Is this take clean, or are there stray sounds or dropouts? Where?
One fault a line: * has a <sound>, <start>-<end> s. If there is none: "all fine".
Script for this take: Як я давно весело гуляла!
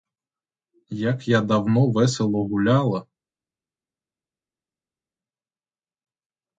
all fine